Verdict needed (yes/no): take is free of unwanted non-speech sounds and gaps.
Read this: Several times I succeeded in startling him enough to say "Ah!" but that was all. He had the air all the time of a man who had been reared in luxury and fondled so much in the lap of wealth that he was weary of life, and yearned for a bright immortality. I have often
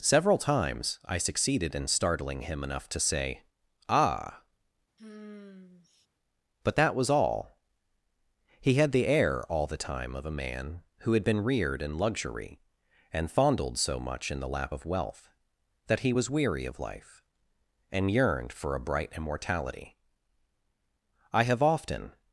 no